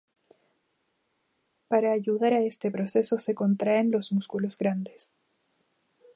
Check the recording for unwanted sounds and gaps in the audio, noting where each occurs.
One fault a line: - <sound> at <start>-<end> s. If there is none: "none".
none